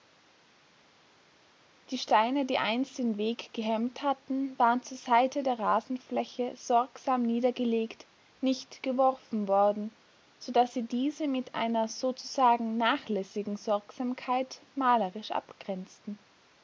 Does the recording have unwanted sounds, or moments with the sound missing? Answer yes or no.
no